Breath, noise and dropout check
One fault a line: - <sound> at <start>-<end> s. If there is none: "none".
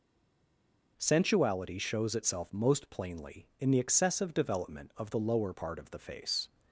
none